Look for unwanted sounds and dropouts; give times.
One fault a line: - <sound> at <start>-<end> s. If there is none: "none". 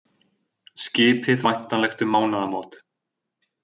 none